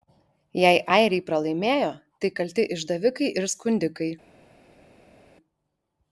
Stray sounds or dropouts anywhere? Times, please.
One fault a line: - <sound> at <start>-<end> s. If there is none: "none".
none